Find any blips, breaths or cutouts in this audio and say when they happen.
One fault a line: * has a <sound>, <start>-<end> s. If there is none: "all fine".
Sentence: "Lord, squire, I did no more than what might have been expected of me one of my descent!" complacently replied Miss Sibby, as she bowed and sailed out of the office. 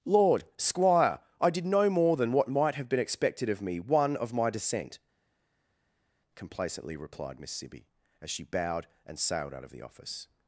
all fine